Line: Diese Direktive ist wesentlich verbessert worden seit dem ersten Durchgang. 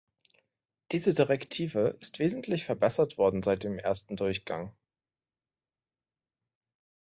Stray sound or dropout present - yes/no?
no